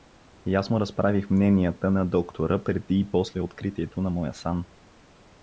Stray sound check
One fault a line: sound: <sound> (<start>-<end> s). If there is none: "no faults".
no faults